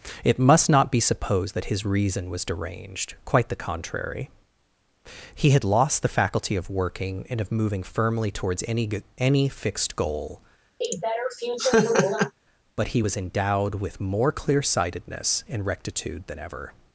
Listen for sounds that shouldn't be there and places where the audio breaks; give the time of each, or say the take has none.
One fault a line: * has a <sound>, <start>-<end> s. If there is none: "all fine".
* has a laugh, 10.8-12.3 s